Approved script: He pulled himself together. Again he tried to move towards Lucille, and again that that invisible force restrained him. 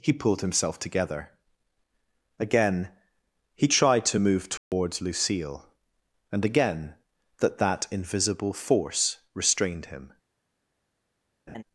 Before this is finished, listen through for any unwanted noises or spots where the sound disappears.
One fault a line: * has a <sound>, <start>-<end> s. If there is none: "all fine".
* has a dropout, 4.6-4.7 s
* has a laugh, 11.5-11.6 s